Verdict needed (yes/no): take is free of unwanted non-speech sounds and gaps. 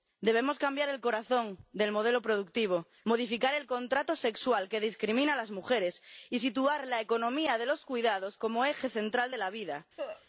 no